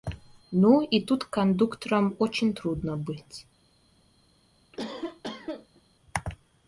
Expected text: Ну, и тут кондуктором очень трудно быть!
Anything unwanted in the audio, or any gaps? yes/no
yes